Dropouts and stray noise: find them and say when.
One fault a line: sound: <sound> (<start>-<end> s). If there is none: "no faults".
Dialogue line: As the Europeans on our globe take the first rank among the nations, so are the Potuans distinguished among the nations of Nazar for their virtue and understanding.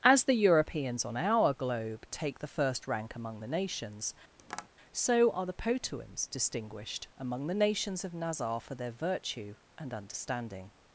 sound: tap (4.4-4.7 s)